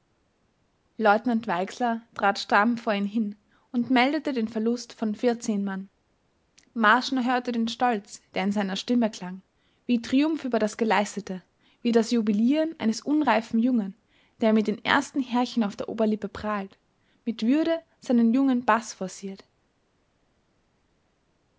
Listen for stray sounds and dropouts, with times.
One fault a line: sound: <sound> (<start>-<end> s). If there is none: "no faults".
no faults